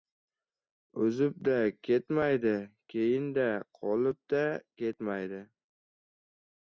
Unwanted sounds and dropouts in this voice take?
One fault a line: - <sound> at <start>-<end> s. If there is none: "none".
none